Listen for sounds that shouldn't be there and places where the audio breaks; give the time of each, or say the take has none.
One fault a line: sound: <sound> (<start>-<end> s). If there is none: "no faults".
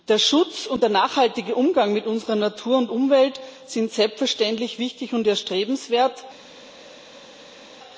no faults